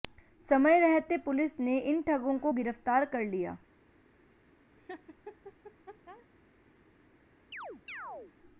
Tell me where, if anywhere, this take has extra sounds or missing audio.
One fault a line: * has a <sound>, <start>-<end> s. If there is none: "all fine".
* has a laugh, 4.8-6.3 s
* has a chirp, 7.5-8.3 s